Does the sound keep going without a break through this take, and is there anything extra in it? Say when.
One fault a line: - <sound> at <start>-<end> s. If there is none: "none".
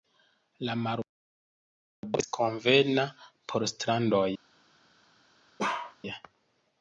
- bark at 5.6-6.0 s